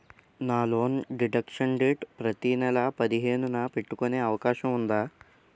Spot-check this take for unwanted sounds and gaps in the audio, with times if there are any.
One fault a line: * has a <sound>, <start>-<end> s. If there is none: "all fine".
all fine